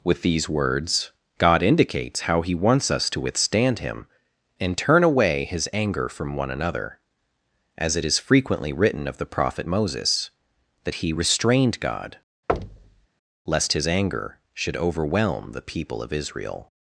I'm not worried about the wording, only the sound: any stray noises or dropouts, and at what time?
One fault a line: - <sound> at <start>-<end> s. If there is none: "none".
- thud at 12.5-13.1 s